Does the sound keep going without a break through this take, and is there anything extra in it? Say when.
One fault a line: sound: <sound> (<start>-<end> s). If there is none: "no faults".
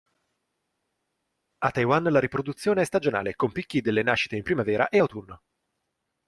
no faults